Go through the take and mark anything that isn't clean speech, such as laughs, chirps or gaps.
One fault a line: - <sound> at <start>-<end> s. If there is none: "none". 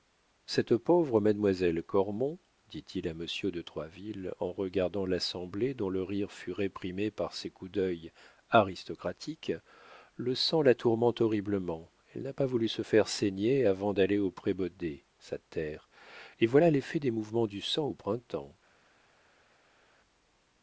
none